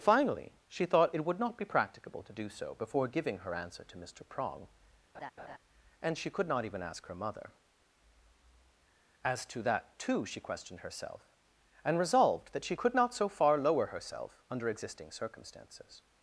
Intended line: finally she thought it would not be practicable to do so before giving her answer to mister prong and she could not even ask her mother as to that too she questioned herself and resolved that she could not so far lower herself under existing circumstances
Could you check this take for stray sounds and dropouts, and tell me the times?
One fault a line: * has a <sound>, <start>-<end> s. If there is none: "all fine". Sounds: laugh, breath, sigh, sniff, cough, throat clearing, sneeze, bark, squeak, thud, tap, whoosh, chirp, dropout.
* has a laugh, 5.1-5.6 s